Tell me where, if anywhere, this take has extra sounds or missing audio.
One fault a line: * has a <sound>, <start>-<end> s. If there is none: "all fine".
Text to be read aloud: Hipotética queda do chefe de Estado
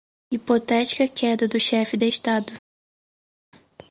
all fine